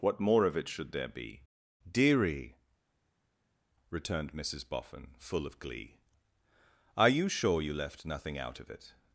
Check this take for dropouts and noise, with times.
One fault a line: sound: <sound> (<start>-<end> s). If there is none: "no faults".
no faults